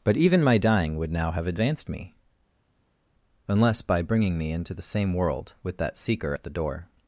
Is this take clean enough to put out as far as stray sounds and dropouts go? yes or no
yes